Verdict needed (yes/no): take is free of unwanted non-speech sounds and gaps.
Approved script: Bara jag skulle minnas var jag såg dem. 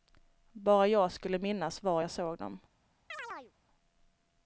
no